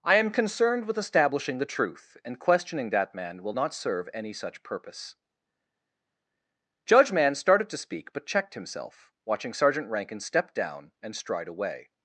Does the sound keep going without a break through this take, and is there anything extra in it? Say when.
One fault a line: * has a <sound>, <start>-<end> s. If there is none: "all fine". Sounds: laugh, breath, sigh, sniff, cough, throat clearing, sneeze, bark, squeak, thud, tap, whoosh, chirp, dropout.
all fine